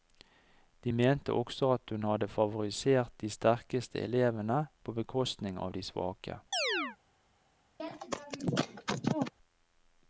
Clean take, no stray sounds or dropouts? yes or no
no